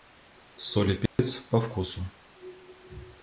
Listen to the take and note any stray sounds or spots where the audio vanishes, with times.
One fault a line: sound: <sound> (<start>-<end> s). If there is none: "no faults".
sound: dropout (1.1-1.2 s)